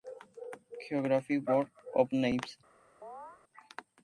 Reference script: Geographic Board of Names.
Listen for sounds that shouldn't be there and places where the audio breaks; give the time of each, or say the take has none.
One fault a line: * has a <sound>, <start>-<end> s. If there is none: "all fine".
* has a chirp, 3.0-3.4 s